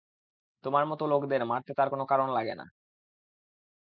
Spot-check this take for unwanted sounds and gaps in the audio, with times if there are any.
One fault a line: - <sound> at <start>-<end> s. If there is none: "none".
none